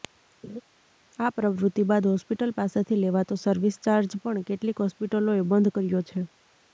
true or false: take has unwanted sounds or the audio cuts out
true